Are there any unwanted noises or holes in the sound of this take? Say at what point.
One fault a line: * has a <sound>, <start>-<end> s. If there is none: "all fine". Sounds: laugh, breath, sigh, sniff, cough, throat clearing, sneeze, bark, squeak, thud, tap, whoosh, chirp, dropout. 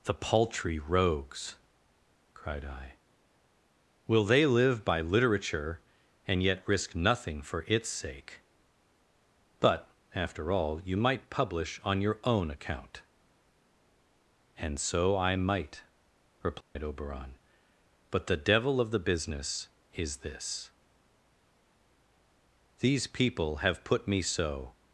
* has a dropout, 16.6-16.8 s